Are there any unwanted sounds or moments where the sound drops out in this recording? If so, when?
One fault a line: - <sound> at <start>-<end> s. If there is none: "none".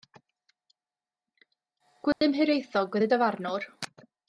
- dropout at 2.1-2.2 s